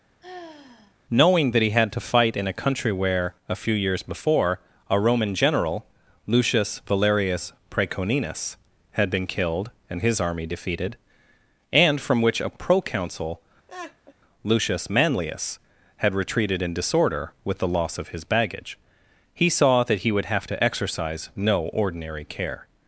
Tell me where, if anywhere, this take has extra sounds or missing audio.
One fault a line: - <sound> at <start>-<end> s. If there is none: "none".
- sigh at 0.2-0.9 s
- laugh at 13.7-14.1 s